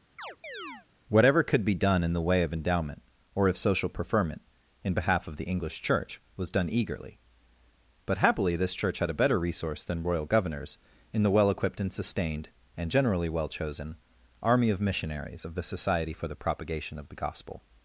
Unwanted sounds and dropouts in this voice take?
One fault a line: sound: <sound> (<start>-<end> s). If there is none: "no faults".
sound: chirp (0.2-0.9 s)